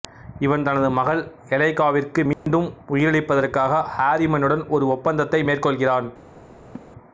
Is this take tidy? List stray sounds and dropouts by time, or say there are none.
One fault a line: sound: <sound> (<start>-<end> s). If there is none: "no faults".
sound: dropout (2.3-2.5 s)
sound: laugh (6.8-6.9 s)